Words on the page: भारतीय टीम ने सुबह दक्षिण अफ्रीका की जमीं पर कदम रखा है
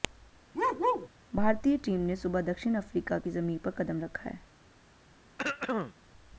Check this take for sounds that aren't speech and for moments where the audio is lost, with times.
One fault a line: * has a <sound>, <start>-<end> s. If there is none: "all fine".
* has a bark, 0.5-1.1 s
* has a throat clearing, 5.4-5.9 s